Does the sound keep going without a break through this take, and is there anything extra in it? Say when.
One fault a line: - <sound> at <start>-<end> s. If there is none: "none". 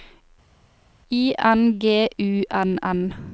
none